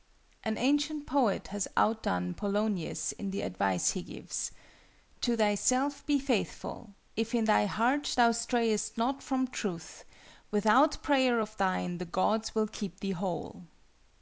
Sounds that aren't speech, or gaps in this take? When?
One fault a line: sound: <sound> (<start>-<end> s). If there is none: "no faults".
no faults